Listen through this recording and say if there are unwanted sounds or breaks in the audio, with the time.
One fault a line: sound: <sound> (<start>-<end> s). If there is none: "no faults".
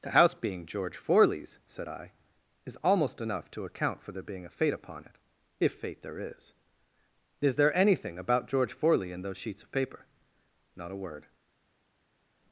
no faults